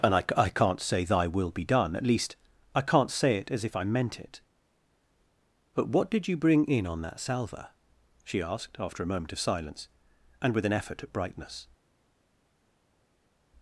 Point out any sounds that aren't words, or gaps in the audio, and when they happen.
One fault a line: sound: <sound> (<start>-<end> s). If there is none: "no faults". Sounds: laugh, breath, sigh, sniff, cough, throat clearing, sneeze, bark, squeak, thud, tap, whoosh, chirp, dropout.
no faults